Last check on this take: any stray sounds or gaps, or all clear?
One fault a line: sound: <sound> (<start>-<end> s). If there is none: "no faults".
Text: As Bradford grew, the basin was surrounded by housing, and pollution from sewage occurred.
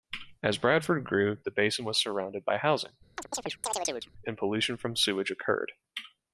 sound: chirp (3.2-4.1 s)